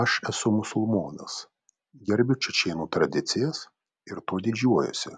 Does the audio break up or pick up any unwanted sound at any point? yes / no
no